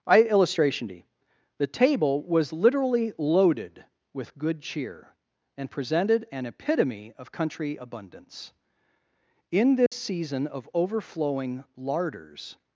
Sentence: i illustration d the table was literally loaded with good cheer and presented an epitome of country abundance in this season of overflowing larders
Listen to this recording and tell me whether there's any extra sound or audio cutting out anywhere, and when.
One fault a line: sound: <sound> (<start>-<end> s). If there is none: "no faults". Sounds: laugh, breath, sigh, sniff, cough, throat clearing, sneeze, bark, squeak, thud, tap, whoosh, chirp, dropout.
sound: dropout (9.9-9.9 s)